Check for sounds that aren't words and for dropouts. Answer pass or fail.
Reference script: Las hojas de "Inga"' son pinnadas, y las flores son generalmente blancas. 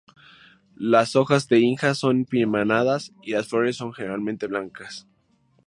pass